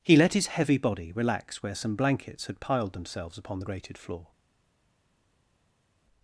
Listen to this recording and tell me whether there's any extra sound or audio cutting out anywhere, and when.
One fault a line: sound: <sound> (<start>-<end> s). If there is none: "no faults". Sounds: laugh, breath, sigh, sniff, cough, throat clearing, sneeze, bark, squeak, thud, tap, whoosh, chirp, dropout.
no faults